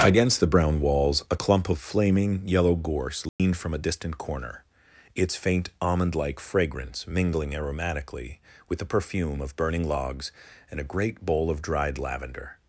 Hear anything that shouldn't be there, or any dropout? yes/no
yes